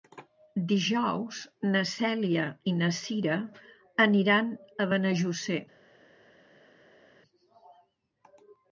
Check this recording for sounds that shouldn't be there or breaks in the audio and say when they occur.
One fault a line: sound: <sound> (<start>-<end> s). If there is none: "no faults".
no faults